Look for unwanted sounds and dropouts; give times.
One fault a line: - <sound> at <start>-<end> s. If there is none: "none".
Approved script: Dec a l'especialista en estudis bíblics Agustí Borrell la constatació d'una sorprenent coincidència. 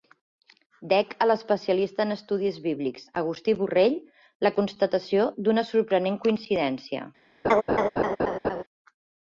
- laugh at 7.4-8.6 s